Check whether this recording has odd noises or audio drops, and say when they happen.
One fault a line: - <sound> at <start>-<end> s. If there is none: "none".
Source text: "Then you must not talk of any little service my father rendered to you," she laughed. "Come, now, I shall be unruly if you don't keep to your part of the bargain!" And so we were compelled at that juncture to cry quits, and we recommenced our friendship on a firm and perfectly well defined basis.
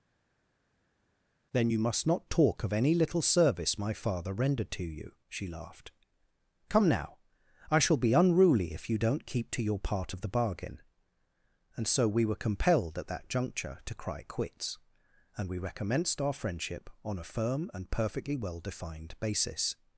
none